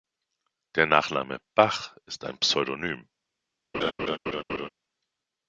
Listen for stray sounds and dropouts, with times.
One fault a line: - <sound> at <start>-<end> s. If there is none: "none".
- laugh at 3.7-4.7 s